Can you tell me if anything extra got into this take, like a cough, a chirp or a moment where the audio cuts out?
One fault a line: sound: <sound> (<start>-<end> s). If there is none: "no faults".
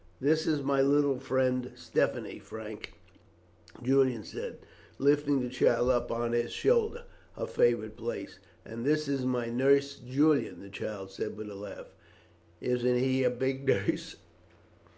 no faults